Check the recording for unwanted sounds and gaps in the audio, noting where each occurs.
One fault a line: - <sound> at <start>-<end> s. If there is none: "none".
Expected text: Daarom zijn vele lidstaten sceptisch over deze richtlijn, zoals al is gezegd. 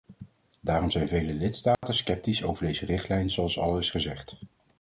- dropout at 1.7-1.8 s